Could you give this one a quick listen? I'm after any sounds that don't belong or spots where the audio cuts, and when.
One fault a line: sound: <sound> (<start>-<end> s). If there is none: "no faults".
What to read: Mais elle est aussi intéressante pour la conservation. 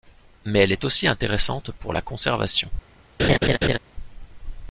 sound: laugh (3.2-3.8 s)